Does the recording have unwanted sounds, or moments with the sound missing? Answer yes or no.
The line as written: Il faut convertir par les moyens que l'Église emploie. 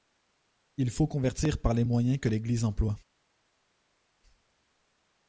no